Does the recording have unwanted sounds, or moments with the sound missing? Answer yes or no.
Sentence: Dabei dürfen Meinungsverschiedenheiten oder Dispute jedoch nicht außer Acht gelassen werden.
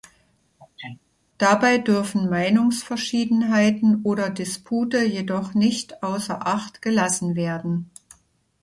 yes